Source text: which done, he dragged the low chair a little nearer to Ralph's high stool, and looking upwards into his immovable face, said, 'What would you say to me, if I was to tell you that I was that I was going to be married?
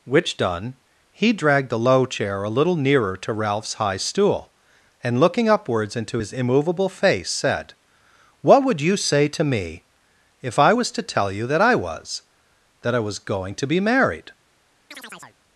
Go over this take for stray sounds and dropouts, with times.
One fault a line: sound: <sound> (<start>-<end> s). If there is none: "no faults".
sound: chirp (14.9-15.4 s)